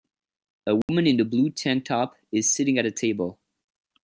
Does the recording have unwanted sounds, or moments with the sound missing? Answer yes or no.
yes